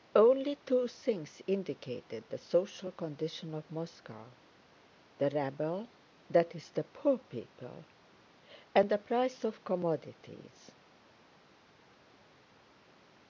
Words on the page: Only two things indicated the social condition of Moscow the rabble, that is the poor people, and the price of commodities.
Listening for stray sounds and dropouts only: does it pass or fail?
pass